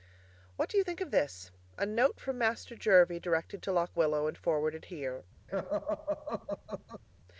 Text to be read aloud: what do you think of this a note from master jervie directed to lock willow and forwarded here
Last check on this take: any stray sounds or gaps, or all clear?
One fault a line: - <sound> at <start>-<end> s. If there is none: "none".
- laugh at 5.5-7.0 s